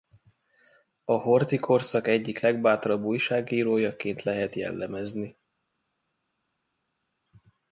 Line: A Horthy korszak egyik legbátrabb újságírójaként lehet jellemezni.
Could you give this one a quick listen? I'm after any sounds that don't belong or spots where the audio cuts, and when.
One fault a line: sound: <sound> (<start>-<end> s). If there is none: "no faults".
no faults